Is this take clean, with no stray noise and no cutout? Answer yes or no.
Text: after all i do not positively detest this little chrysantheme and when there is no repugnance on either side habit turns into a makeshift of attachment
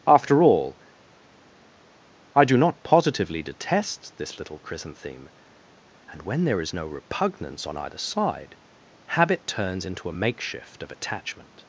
yes